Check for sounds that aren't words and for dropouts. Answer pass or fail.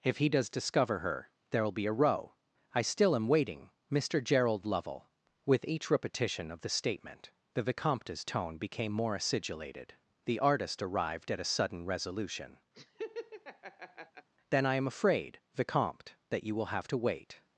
fail